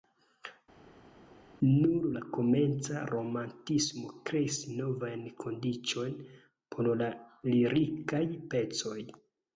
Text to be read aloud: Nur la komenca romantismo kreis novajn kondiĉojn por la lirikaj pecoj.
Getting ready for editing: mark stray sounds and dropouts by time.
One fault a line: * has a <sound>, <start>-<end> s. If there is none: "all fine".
all fine